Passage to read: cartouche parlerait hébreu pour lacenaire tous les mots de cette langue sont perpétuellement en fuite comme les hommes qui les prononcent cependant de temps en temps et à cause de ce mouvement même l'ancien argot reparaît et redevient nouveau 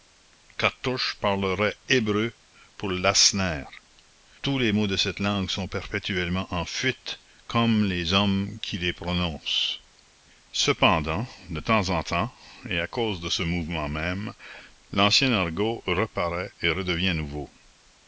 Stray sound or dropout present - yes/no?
no